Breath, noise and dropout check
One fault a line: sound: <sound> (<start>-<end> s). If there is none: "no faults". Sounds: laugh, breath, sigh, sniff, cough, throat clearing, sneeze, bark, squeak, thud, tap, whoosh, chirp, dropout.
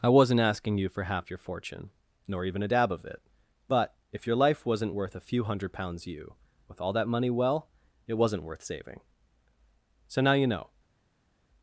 no faults